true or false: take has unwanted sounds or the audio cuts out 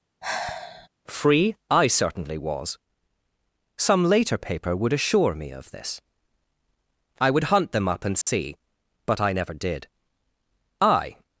true